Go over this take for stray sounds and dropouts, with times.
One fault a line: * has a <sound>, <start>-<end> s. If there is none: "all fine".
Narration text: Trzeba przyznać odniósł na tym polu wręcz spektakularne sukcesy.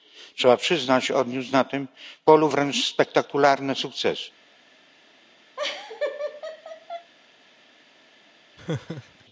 * has a laugh, 5.6-7.1 s
* has a laugh, 8.6-9.2 s